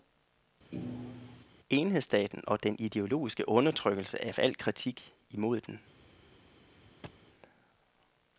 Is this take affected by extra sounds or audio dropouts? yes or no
yes